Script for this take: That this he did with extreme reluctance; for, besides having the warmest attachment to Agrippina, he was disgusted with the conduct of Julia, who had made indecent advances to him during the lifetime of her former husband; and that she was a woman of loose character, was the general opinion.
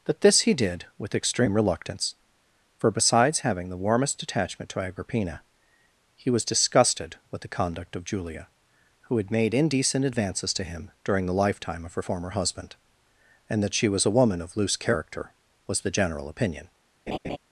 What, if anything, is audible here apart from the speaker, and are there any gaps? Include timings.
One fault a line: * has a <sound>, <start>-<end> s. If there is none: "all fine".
* has a laugh, 17.1-17.4 s